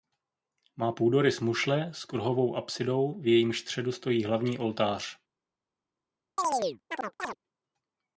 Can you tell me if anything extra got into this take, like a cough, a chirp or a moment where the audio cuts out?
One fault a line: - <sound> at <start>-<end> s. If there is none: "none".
- chirp at 6.4-7.4 s